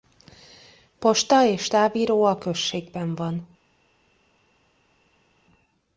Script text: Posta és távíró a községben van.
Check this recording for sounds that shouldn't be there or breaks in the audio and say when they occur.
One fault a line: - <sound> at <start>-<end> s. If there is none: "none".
none